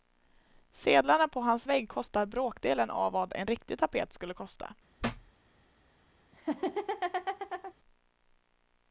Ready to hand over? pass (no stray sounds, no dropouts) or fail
fail